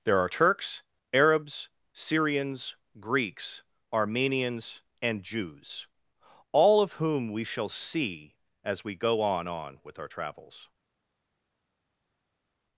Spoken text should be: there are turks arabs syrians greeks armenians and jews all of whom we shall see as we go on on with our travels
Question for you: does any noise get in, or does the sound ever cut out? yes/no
no